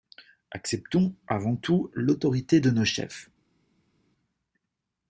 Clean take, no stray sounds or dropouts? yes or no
yes